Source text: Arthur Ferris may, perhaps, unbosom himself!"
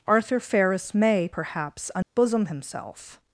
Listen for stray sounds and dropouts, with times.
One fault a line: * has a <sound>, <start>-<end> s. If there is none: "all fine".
* has a dropout, 2.0-2.2 s